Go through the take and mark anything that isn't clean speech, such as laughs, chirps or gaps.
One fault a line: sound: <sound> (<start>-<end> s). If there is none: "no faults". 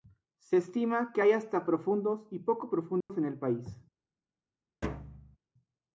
sound: dropout (3.0-3.1 s)
sound: thud (4.8-5.4 s)